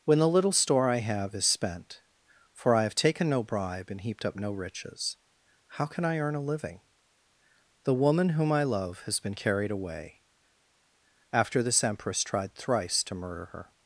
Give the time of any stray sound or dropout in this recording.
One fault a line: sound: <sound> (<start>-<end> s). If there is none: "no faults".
no faults